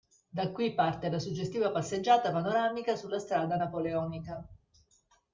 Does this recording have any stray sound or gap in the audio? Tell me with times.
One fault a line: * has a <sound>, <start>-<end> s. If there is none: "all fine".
all fine